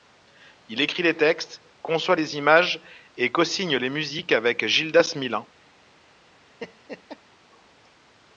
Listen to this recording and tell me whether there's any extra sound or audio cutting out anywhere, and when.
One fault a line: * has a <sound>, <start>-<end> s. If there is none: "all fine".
* has a laugh, 6.6-7.2 s